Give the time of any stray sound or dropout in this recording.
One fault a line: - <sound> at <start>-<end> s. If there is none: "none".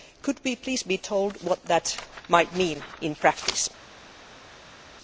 none